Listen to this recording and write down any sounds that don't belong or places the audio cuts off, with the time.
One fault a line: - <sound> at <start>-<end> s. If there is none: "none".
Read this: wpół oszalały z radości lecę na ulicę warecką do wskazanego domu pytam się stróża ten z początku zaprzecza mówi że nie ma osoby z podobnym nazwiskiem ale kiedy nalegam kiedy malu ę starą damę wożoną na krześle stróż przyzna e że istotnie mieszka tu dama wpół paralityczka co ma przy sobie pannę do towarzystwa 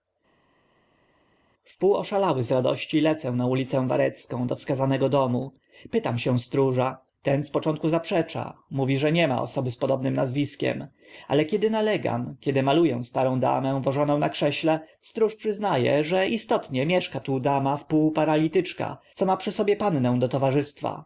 none